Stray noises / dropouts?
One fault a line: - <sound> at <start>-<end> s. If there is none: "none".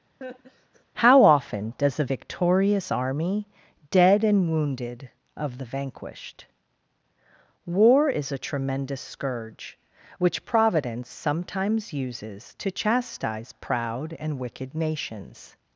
- laugh at 0.2-0.8 s